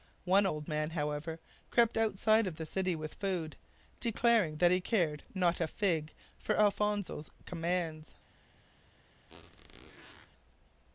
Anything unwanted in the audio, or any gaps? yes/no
yes